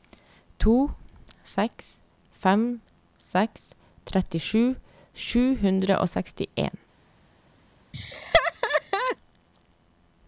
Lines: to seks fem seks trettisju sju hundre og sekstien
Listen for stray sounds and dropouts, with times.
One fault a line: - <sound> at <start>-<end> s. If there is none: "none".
- laugh at 7.9-9.2 s